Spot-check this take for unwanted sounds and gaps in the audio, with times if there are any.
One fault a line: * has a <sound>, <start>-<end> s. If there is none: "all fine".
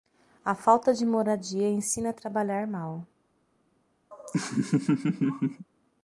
* has a laugh, 4.1-5.7 s